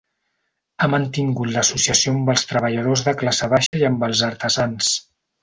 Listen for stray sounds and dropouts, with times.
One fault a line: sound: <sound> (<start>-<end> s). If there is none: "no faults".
sound: dropout (3.7-3.7 s)